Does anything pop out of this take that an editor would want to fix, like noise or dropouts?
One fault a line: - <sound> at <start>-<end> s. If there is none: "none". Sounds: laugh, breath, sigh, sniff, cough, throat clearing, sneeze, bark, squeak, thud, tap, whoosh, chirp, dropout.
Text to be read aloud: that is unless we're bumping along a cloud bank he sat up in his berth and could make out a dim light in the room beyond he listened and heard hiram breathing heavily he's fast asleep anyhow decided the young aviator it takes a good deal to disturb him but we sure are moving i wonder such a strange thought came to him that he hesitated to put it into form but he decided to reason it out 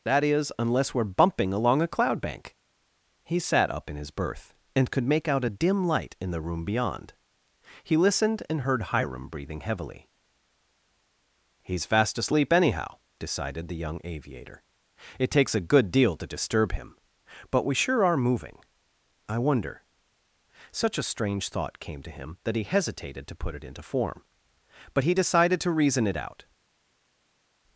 none